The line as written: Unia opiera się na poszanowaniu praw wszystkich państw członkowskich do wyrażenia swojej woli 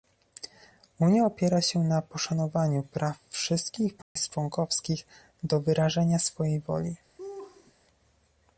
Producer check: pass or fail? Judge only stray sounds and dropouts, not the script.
fail